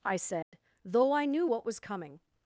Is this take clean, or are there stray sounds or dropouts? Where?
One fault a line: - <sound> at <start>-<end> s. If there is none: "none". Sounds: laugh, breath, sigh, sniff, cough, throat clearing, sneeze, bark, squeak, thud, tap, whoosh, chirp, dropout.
- dropout at 0.4-0.5 s